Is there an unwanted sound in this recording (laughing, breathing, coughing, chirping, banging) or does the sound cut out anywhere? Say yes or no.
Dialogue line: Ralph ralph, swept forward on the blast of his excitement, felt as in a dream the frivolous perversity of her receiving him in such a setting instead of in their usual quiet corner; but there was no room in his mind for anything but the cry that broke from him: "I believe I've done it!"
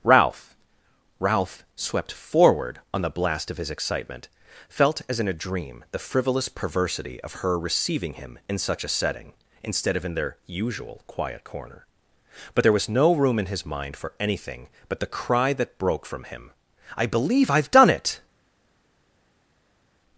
no